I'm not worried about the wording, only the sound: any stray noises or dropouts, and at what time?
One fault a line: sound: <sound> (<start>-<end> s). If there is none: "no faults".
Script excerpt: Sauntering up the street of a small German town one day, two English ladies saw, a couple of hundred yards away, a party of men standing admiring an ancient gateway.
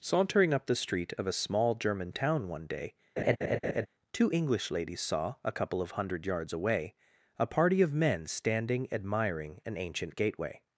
sound: laugh (3.2-3.9 s)